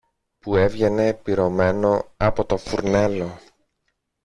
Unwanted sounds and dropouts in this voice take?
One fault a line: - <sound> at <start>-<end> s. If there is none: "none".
none